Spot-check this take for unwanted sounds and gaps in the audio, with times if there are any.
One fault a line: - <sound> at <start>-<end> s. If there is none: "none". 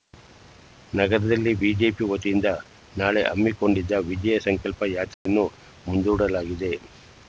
- dropout at 5.1-5.3 s